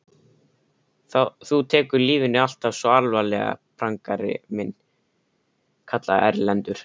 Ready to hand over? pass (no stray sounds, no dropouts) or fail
pass